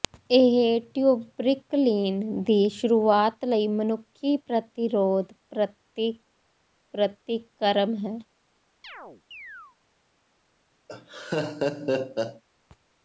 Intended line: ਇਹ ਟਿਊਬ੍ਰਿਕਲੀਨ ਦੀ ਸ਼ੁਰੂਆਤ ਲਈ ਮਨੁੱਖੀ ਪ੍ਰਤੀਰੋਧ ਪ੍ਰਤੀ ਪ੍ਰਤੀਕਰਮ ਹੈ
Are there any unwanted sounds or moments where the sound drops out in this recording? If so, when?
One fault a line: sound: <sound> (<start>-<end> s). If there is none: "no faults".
sound: chirp (8.8-9.8 s)
sound: laugh (10.9-12.4 s)